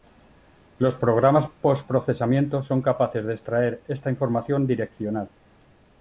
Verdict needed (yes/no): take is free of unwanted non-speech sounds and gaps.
yes